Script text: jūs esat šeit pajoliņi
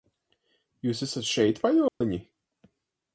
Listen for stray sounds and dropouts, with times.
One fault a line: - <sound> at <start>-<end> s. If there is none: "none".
- dropout at 1.9-2.0 s